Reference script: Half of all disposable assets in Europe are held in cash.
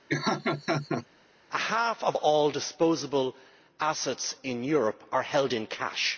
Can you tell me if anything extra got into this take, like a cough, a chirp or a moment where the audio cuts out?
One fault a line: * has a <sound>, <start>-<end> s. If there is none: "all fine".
* has a laugh, 0.1-1.1 s